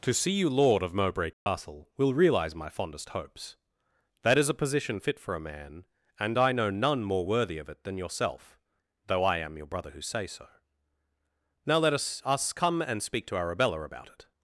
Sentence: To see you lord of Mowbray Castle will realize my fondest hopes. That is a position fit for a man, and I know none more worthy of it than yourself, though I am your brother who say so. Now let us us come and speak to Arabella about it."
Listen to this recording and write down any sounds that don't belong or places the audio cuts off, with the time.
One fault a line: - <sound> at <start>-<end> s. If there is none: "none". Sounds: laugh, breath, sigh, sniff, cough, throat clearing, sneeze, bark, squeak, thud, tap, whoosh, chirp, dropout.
- dropout at 1.3-1.5 s